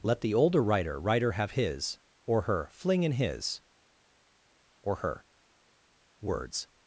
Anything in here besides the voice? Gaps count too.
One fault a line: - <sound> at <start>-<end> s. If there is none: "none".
none